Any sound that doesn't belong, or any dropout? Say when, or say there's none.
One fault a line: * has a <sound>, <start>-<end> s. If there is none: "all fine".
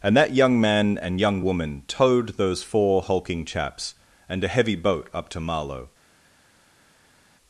all fine